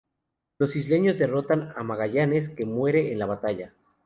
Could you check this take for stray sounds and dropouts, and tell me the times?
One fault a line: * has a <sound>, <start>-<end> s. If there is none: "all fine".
all fine